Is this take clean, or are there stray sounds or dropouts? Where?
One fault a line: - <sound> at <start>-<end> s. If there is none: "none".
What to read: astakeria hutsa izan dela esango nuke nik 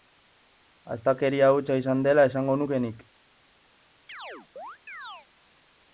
- chirp at 4.1-5.3 s